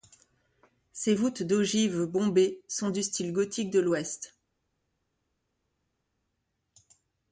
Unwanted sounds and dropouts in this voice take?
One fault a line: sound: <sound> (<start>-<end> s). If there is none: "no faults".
no faults